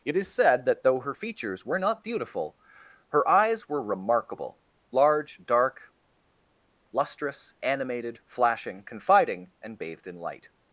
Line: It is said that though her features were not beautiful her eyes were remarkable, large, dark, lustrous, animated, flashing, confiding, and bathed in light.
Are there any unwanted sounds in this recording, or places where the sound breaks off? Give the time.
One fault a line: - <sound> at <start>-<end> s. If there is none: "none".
none